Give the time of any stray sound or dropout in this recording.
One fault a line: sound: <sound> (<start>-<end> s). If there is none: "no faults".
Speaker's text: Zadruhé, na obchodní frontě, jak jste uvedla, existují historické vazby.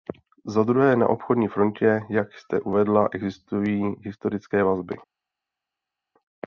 no faults